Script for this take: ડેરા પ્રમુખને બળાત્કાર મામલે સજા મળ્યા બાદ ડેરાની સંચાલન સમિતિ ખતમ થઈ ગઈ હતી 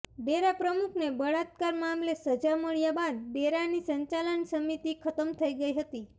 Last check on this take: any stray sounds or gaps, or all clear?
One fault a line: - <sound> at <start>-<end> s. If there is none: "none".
none